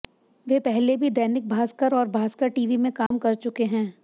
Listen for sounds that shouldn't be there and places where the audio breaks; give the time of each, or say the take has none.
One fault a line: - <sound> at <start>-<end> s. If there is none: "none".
- dropout at 3.1-3.1 s